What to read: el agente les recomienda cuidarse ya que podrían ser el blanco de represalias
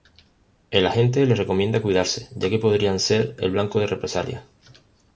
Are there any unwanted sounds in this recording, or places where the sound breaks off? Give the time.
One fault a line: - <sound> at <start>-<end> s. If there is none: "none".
none